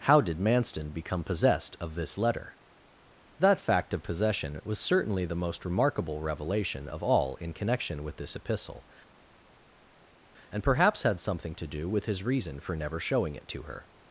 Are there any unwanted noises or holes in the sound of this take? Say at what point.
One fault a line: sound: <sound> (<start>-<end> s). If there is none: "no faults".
no faults